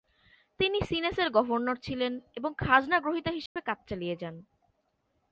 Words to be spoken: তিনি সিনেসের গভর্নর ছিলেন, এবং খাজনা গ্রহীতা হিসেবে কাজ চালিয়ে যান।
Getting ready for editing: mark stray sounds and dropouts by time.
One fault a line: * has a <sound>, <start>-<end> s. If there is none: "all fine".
* has a dropout, 3.5-3.6 s